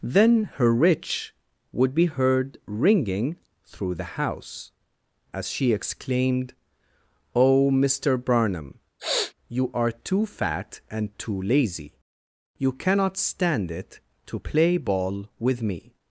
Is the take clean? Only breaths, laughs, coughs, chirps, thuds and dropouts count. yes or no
no